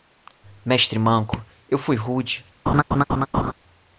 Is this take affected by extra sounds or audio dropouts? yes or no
yes